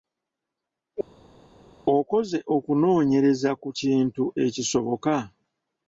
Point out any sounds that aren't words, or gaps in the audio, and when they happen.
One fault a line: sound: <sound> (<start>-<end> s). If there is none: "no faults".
no faults